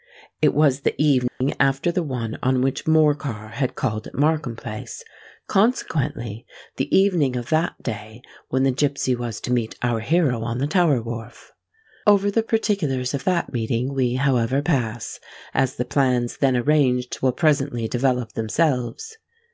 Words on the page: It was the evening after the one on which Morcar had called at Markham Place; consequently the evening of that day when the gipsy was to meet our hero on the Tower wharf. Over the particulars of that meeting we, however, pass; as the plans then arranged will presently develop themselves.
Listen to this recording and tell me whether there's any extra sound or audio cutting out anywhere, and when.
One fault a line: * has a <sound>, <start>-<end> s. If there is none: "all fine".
* has a dropout, 1.3-1.4 s